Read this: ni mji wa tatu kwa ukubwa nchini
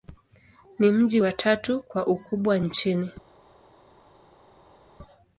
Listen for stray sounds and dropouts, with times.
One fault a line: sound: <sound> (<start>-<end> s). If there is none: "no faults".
no faults